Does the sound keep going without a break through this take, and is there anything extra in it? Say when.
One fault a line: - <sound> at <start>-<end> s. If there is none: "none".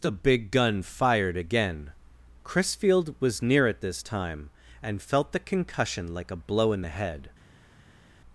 none